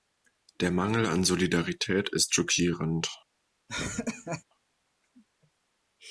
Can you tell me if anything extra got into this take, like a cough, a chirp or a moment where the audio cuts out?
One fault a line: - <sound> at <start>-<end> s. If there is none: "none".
- laugh at 3.7-4.4 s